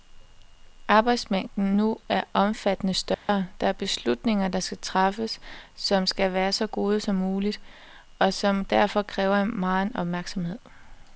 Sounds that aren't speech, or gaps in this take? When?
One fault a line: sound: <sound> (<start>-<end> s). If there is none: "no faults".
sound: dropout (3.1-3.3 s)